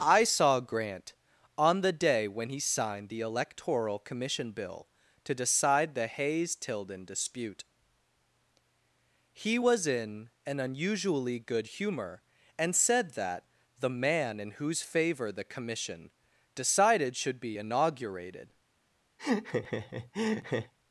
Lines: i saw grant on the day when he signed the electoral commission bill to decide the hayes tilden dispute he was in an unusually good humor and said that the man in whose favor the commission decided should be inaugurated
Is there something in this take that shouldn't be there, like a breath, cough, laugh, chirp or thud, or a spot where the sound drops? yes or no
yes